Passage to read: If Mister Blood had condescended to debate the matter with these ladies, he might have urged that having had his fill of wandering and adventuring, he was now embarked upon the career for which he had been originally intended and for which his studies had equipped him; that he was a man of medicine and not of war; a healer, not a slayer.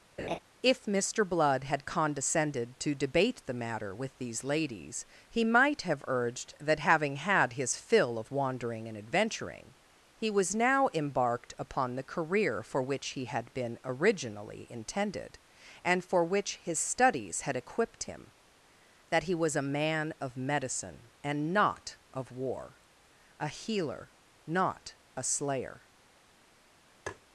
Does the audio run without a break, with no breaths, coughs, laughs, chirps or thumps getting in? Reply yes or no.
no